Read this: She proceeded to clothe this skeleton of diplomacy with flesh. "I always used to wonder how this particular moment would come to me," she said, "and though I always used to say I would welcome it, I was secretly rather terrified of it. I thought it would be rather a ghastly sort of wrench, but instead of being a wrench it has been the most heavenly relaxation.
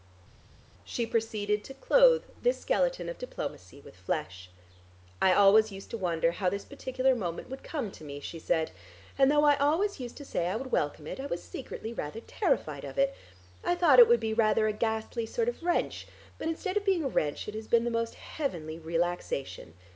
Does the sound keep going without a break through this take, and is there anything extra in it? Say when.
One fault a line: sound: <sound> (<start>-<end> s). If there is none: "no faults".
no faults